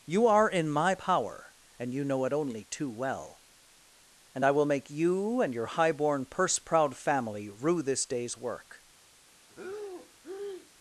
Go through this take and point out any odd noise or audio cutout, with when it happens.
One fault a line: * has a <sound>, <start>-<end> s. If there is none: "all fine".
* has a breath, 9.5-10.7 s